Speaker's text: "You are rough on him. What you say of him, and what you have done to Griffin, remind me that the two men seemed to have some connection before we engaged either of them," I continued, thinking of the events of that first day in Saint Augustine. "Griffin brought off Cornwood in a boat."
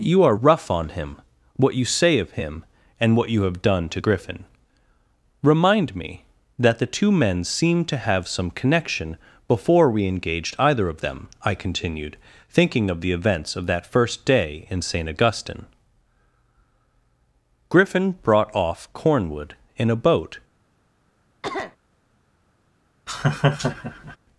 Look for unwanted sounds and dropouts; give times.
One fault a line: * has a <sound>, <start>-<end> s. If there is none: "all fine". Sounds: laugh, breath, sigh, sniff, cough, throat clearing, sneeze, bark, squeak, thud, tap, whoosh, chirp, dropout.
* has a cough, 21.4-21.8 s
* has a laugh, 23.1-24.2 s